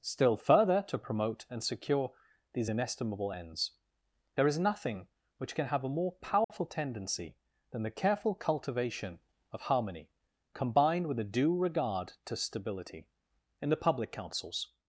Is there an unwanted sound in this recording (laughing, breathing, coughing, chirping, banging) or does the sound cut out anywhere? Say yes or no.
yes